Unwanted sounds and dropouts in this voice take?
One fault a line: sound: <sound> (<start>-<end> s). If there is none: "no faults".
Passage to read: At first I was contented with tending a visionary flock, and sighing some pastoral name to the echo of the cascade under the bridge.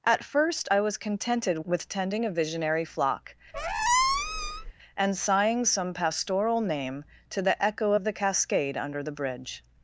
sound: squeak (3.5-4.7 s)